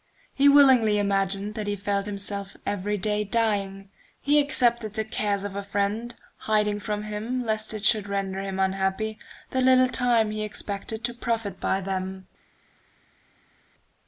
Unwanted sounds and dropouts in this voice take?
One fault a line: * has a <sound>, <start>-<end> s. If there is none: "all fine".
all fine